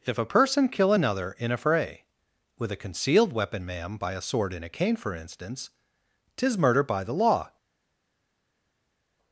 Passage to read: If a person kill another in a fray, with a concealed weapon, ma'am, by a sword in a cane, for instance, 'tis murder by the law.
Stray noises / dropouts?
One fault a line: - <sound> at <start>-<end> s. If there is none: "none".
none